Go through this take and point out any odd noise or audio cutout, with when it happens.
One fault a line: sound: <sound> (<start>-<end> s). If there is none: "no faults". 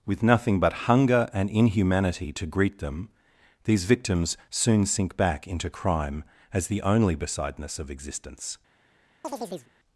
sound: chirp (9.2-9.7 s)